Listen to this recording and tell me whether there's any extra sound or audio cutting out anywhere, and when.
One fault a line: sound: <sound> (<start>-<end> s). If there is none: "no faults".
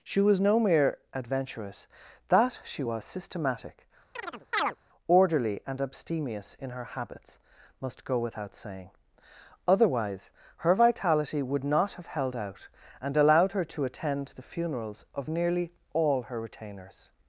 sound: chirp (4.1-4.8 s)